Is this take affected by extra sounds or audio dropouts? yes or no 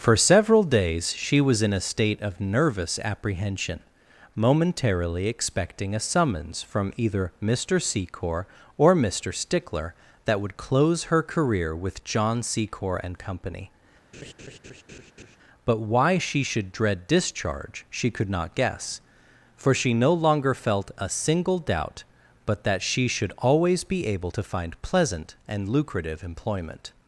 yes